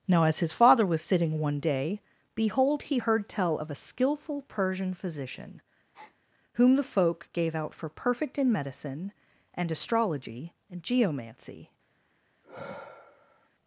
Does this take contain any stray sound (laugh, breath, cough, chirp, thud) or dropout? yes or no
yes